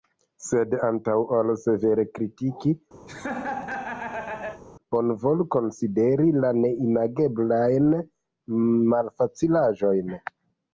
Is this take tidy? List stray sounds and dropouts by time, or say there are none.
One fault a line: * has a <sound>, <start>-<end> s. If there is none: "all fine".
* has a laugh, 3.1-4.6 s